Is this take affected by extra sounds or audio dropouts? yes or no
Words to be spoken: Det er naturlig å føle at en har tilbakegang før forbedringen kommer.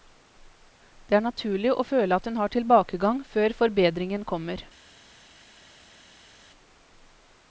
no